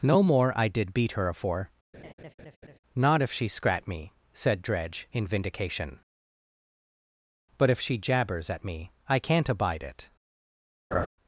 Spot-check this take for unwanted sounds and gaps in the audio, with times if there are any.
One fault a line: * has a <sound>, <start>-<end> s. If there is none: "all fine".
* has a laugh, 1.9-2.8 s
* has a laugh, 10.9-11.1 s